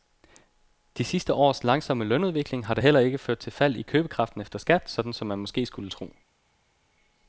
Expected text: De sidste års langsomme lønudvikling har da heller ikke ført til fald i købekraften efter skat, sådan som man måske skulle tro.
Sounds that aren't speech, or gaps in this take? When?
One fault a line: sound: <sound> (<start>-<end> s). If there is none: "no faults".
no faults